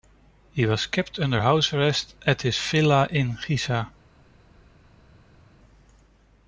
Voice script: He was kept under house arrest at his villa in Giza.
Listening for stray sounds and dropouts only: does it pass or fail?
pass